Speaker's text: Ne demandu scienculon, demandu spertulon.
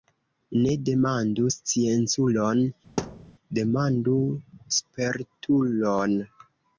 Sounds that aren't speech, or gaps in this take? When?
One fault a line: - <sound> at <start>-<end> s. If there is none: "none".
- thud at 3.0-3.3 s